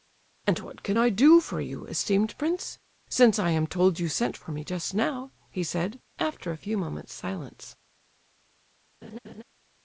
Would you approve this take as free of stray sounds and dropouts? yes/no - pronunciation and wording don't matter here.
no